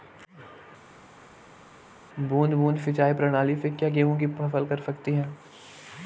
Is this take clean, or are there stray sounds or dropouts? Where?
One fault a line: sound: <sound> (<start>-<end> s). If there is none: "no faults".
no faults